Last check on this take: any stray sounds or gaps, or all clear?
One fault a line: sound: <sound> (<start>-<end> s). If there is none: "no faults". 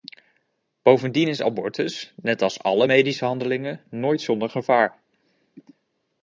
no faults